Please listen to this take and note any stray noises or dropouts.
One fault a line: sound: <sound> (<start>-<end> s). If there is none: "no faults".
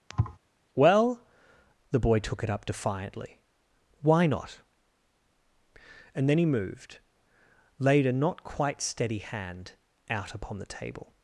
sound: thud (0.1-0.4 s)